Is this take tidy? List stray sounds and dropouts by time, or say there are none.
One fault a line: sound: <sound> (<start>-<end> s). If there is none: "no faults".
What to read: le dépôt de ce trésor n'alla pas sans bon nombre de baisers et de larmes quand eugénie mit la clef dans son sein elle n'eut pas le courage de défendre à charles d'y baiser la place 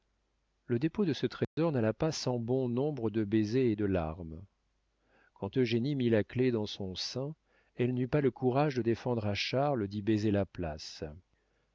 sound: dropout (1.4-1.6 s)